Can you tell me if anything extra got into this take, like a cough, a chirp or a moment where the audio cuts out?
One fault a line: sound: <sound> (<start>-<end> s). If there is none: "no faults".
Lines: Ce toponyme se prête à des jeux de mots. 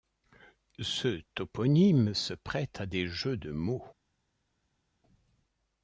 no faults